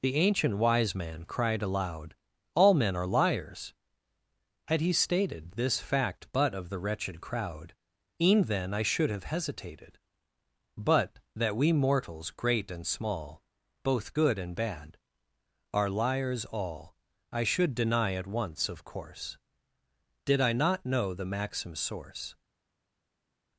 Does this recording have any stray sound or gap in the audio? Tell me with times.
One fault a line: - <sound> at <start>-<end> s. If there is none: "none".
none